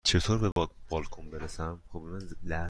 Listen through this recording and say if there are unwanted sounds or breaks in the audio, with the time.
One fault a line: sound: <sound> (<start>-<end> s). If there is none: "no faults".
sound: dropout (0.5-0.6 s)